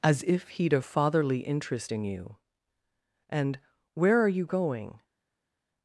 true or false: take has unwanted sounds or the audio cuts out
false